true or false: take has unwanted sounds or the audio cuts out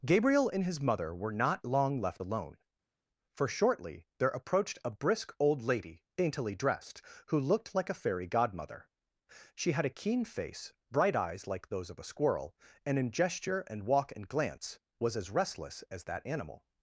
false